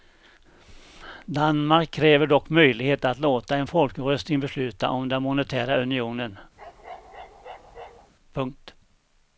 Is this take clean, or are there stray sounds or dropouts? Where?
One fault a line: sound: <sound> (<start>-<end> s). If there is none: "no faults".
sound: bark (6.6-8.1 s)